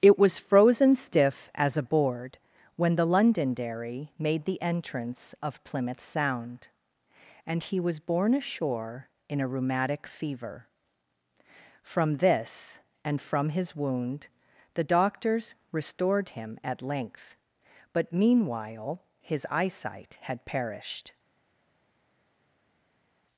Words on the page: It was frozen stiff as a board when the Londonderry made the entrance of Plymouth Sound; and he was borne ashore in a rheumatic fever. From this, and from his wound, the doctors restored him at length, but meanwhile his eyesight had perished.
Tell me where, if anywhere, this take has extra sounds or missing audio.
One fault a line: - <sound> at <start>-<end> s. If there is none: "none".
none